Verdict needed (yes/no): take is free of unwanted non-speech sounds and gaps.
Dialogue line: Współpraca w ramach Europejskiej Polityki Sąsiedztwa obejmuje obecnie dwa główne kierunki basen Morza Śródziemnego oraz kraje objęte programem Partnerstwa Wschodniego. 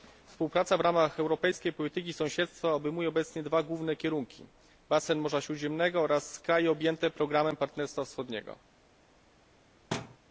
no